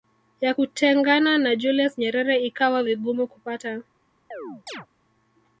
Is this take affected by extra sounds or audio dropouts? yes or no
yes